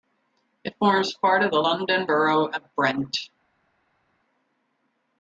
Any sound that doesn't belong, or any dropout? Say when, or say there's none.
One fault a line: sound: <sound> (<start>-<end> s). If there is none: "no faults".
no faults